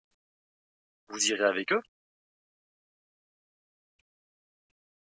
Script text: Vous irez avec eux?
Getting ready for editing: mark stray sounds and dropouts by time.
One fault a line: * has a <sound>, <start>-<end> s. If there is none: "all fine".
all fine